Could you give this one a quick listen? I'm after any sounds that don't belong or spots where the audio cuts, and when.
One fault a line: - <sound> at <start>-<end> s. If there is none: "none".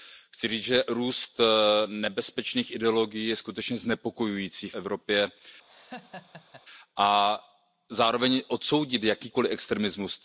- laugh at 5.7-6.6 s